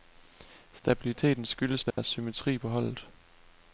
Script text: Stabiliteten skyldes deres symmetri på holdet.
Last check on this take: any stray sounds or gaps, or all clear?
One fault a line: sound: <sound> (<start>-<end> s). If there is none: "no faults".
sound: dropout (1.9-2.0 s)